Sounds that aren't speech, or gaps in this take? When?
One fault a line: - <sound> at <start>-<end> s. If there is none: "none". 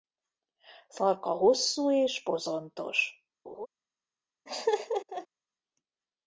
- laugh at 3.4-3.7 s
- laugh at 4.5-5.3 s